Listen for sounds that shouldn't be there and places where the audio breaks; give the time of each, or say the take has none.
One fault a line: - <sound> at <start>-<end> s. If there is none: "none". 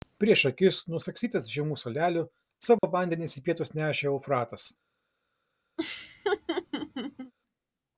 - dropout at 2.8-2.8 s
- laugh at 5.8-7.3 s